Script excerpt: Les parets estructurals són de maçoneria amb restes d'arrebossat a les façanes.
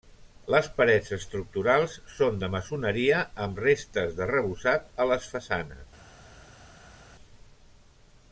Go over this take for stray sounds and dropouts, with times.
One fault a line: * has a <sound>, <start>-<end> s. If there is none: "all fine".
all fine